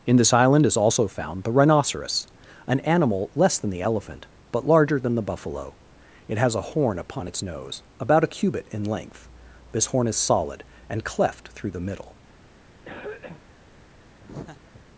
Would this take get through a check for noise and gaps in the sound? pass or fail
fail